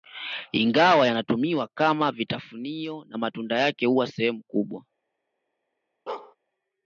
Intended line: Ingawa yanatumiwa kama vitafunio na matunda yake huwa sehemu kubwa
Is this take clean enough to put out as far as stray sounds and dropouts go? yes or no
no